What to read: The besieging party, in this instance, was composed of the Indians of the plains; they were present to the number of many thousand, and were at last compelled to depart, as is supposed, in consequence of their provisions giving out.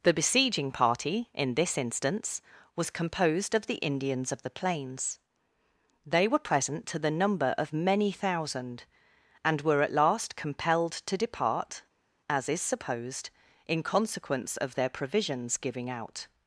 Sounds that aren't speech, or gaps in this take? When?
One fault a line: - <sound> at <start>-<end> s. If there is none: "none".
none